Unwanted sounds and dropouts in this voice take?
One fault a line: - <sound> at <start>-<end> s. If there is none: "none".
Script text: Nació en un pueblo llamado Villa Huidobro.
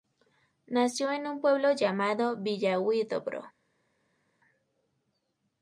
none